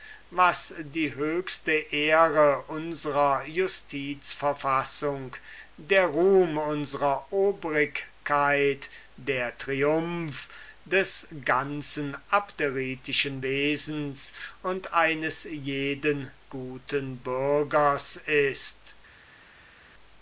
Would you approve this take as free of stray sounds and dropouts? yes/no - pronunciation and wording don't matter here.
yes